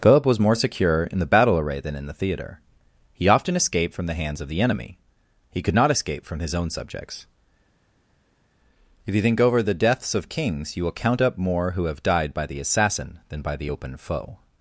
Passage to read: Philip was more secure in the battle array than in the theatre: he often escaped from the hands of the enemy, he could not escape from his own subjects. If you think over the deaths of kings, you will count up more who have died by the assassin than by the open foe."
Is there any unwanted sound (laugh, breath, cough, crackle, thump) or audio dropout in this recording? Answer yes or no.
no